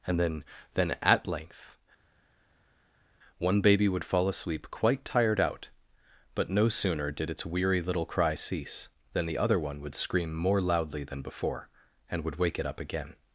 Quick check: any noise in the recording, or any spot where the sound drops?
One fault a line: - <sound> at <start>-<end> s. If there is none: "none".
none